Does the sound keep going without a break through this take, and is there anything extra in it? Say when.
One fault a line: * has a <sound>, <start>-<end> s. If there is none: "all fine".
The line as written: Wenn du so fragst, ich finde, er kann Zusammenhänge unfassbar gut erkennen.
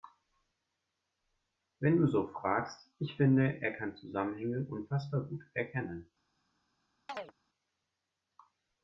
* has a chirp, 7.1-7.3 s